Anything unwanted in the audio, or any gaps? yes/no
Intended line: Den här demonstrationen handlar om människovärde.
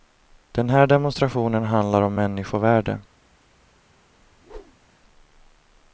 yes